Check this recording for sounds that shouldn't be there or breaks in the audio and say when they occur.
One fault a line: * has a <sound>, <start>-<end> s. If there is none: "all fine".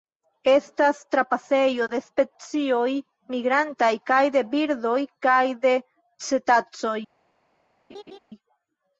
* has a laugh, 7.9-8.2 s